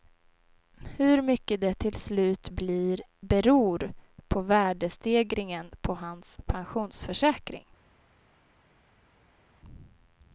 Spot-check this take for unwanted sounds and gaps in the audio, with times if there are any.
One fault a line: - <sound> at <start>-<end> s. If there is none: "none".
none